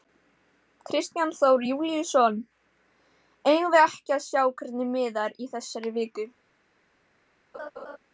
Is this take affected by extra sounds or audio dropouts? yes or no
yes